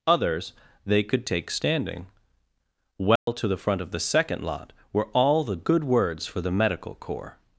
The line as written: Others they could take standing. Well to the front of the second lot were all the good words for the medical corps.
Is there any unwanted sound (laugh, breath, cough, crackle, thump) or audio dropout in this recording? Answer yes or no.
yes